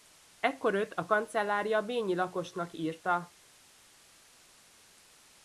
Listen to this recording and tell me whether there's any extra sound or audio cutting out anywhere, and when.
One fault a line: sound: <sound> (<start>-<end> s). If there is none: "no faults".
no faults